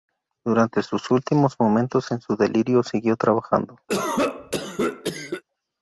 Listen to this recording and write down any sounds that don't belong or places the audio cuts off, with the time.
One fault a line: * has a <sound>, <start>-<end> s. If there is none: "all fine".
* has a cough, 3.9-5.4 s